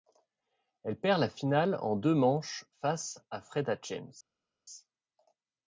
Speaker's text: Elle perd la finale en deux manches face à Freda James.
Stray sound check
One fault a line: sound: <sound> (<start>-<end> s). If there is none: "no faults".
no faults